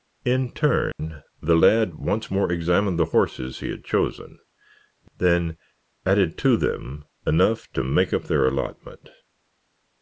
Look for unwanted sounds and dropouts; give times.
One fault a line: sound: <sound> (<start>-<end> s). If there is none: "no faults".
sound: dropout (0.9-1.0 s)